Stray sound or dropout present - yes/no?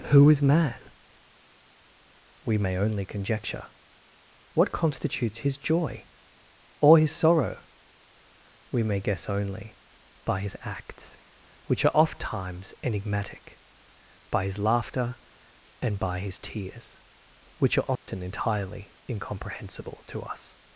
yes